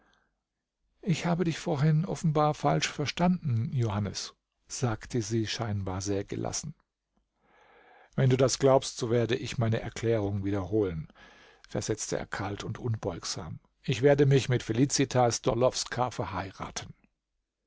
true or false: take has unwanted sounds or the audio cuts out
false